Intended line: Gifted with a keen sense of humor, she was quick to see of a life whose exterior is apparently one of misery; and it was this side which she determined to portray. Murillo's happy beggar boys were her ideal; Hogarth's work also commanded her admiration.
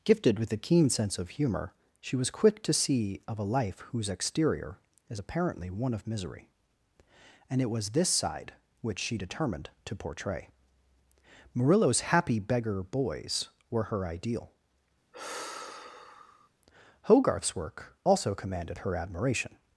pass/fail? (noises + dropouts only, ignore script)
fail